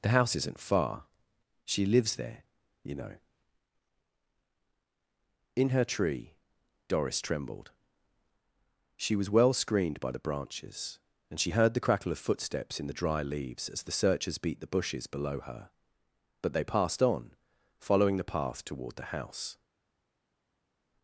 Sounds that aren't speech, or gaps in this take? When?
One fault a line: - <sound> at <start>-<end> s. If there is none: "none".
none